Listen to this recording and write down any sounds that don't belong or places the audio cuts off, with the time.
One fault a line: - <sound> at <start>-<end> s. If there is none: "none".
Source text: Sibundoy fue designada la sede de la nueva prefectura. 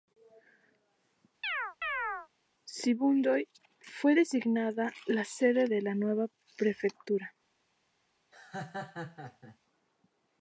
- chirp at 1.4-2.3 s
- laugh at 8.3-9.6 s